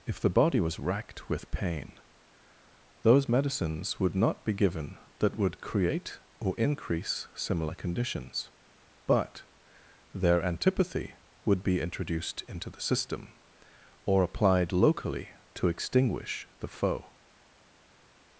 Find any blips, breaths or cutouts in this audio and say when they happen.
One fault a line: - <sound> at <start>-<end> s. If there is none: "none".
none